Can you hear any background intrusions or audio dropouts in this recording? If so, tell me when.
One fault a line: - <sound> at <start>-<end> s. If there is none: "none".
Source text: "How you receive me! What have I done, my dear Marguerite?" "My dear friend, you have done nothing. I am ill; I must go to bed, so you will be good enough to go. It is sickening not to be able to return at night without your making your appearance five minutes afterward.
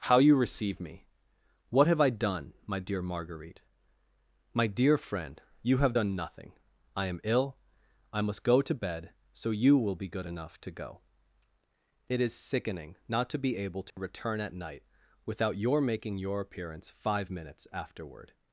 - dropout at 13.9-14.0 s